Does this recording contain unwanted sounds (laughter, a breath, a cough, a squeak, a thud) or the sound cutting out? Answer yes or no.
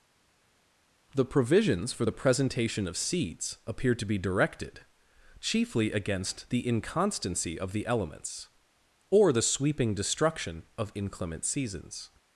no